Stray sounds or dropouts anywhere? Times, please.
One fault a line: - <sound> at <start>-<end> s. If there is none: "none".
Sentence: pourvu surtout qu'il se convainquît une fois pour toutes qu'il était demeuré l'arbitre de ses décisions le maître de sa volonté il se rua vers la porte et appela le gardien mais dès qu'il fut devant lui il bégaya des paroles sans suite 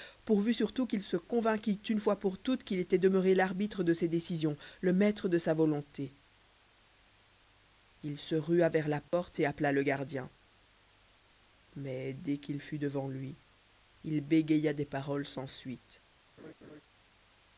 - dropout at 9.1-9.1 s
- laugh at 16.4-16.8 s